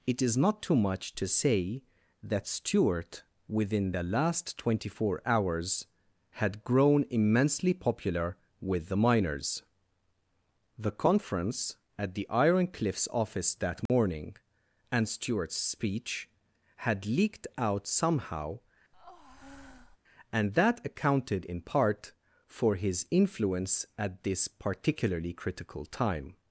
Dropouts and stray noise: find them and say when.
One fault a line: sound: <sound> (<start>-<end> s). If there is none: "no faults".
sound: dropout (13.9-13.9 s)
sound: breath (18.9-20.0 s)